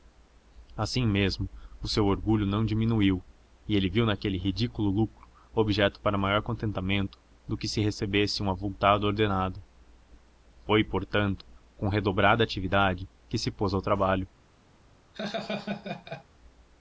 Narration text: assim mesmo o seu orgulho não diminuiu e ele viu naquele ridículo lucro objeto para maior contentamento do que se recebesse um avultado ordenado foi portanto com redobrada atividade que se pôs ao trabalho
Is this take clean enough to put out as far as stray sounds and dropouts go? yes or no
no